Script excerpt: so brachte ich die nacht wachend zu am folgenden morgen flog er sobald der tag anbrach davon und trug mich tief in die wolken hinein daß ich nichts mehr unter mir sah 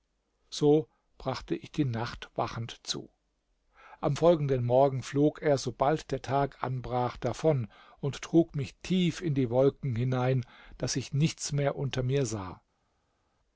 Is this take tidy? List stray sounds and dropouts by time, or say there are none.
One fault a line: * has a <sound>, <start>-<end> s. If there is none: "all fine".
all fine